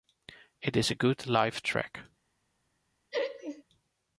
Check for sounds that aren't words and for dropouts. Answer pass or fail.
fail